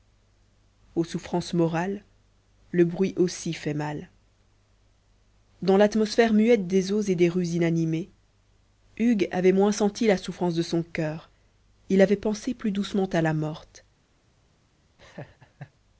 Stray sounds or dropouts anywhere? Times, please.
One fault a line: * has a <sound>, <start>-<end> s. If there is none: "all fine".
* has a laugh, 15.0-15.7 s